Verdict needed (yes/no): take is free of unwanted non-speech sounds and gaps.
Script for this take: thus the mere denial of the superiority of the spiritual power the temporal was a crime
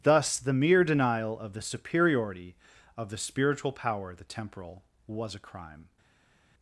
yes